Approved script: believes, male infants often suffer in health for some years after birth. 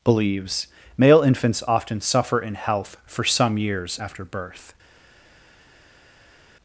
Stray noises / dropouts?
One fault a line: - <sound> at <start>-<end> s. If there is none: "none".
none